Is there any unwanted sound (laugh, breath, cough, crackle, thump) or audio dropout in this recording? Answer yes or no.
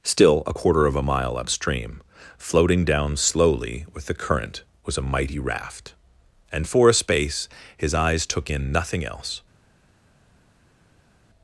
no